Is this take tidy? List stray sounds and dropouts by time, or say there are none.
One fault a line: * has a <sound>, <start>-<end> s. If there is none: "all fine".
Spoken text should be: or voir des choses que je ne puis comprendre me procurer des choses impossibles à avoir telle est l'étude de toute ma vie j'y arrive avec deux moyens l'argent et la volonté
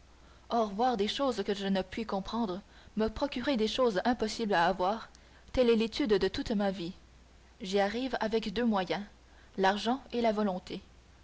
all fine